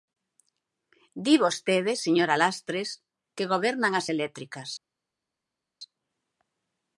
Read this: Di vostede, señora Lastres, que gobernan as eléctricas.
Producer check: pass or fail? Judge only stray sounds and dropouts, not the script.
pass